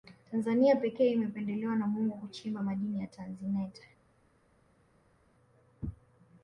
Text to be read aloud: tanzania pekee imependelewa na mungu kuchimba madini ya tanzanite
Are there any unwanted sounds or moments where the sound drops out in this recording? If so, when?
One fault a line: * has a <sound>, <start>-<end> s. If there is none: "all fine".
all fine